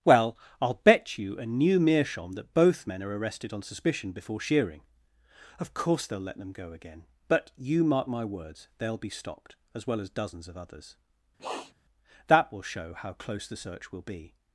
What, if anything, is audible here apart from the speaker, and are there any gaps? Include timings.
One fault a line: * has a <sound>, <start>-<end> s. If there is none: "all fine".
* has a sniff, 11.4-11.7 s